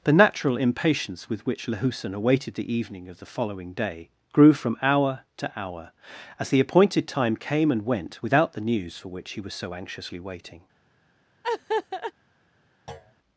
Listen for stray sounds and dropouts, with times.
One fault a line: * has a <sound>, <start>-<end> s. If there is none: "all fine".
* has a laugh, 11.4-12.1 s
* has a thud, 12.9-13.1 s